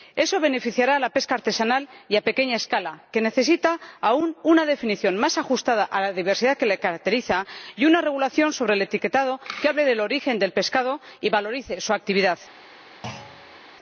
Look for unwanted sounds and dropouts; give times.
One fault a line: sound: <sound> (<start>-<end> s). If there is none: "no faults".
sound: thud (13.0-13.6 s)